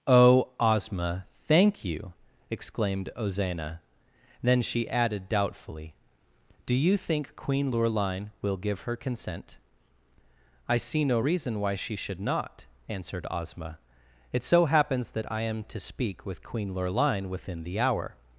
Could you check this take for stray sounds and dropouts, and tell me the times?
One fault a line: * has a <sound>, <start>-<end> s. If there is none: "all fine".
all fine